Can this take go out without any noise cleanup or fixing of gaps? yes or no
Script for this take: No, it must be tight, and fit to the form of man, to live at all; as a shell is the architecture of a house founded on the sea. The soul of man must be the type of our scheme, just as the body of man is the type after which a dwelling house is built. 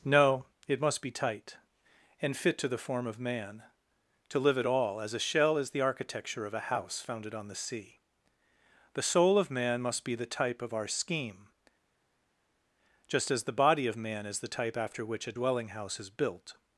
yes